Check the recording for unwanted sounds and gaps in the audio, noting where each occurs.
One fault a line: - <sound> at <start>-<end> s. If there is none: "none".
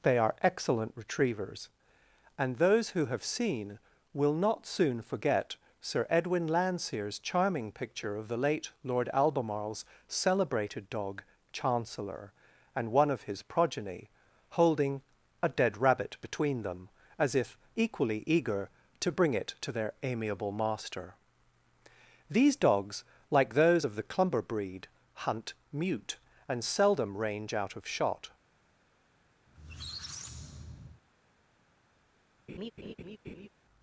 - squeak at 29.5-31.0 s
- laugh at 32.5-33.5 s